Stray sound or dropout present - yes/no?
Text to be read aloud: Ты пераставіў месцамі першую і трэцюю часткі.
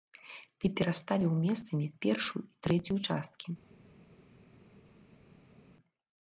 no